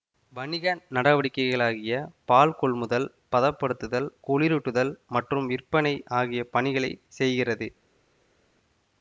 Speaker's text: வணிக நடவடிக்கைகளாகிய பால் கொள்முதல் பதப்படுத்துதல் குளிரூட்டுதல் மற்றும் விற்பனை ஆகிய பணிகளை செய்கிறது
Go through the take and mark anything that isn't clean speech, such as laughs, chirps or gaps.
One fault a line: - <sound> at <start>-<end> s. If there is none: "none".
none